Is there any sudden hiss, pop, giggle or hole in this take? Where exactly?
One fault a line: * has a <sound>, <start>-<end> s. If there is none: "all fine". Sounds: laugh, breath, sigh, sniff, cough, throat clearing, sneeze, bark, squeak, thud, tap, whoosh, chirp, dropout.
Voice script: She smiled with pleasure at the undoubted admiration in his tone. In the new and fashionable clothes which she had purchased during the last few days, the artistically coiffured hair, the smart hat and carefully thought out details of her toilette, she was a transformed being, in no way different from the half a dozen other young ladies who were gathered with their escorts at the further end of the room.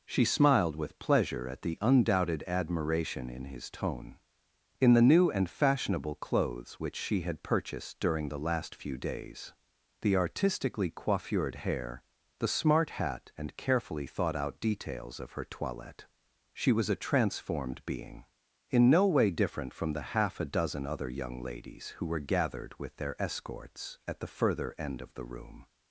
all fine